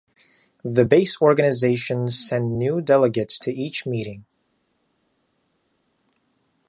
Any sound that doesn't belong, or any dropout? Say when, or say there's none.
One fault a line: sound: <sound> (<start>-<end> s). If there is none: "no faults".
no faults